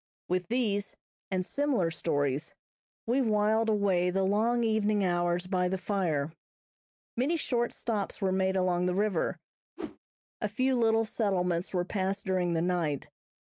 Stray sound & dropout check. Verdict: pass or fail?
fail